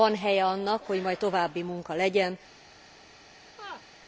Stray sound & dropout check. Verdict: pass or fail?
fail